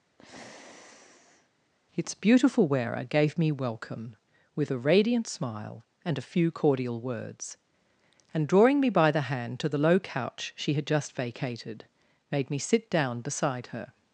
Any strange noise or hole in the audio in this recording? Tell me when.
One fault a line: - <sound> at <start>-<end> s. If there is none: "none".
- sigh at 0.2-1.5 s